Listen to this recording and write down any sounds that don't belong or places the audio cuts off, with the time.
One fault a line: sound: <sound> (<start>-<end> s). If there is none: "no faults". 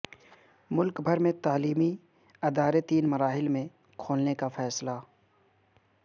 no faults